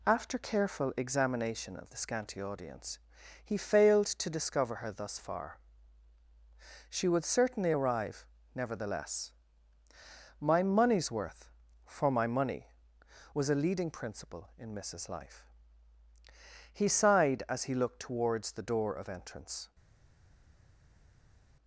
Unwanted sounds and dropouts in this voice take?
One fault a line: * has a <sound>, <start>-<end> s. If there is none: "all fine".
all fine